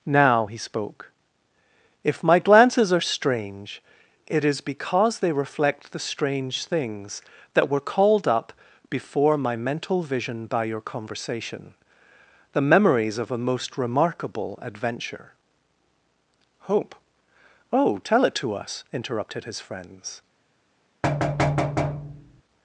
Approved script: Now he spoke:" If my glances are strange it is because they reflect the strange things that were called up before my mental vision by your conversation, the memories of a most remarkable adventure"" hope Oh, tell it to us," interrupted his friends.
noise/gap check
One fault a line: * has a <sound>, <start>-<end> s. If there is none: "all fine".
* has a thud, 21.0-22.4 s